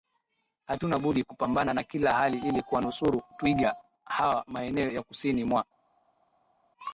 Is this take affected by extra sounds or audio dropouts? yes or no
no